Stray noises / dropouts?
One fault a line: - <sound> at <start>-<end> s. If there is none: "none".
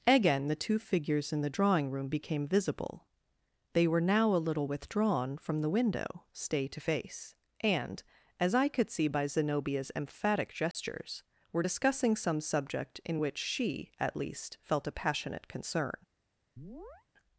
- dropout at 10.7-10.7 s
- chirp at 16.6-17.1 s